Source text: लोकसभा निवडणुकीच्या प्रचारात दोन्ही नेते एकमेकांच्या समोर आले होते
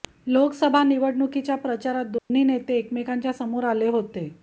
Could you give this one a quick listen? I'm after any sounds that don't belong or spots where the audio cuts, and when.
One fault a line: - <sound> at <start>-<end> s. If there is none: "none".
- dropout at 2.2-2.3 s